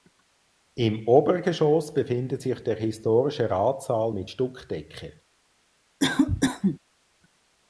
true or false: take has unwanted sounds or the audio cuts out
true